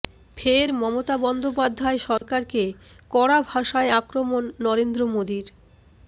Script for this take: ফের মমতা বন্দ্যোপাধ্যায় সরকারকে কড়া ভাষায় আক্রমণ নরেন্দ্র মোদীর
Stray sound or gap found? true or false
true